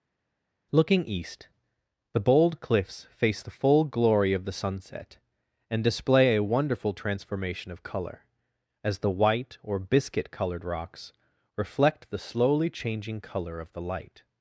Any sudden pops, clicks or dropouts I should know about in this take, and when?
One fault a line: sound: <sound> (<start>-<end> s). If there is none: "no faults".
no faults